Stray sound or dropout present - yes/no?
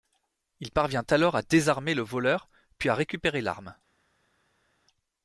no